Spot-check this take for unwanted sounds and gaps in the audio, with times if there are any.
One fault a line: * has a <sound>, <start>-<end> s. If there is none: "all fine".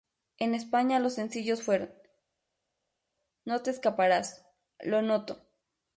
all fine